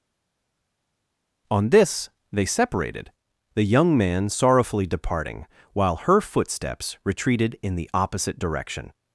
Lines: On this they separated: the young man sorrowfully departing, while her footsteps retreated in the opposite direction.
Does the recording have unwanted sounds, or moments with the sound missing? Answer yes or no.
no